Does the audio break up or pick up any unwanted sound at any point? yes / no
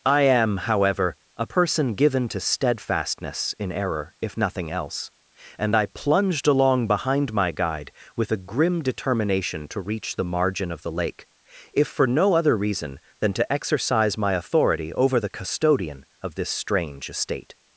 no